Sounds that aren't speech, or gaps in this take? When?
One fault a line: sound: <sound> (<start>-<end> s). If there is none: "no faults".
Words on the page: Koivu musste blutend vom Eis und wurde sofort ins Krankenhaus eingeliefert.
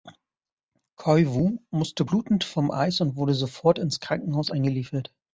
no faults